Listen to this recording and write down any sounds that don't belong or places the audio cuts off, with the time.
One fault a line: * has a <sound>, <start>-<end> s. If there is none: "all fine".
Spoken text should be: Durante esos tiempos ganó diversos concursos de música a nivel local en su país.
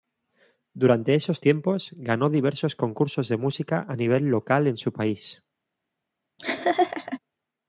* has a laugh, 6.4-7.2 s